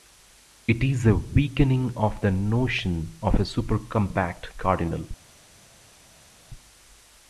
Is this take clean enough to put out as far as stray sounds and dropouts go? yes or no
yes